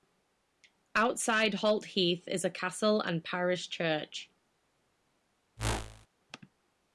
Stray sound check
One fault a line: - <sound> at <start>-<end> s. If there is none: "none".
- whoosh at 5.6-6.1 s